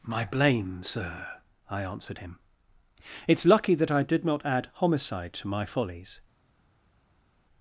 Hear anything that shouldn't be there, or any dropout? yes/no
no